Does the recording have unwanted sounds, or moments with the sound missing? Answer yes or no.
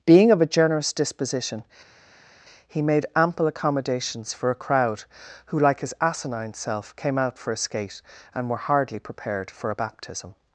no